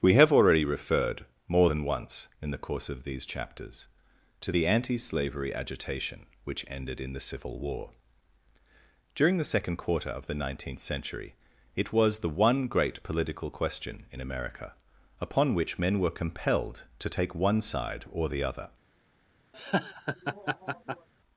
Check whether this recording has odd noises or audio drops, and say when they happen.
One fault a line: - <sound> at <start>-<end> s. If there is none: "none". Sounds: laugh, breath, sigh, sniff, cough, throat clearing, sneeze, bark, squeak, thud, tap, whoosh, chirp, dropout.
- laugh at 19.5-21.1 s